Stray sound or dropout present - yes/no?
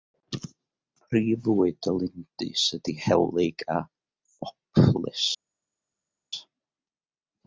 no